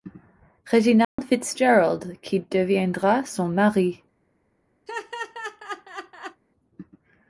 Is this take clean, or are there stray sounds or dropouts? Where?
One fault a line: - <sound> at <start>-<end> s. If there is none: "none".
- dropout at 1.0-1.2 s
- laugh at 4.9-6.4 s